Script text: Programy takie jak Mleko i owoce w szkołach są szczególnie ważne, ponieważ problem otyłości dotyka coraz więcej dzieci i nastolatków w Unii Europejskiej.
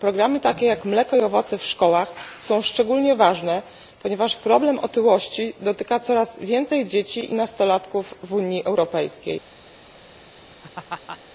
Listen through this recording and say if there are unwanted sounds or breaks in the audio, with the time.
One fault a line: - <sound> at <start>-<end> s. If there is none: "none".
- laugh at 10.5-11.2 s